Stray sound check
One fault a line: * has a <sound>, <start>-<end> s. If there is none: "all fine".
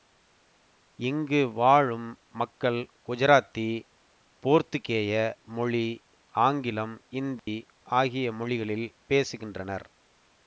* has a dropout, 7.4-7.5 s